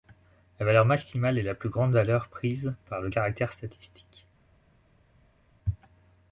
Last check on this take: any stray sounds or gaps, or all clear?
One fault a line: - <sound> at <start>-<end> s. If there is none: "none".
none